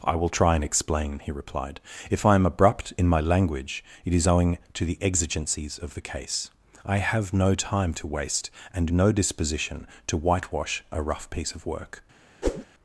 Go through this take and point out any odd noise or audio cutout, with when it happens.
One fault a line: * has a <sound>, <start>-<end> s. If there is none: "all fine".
* has a whoosh, 12.4-12.6 s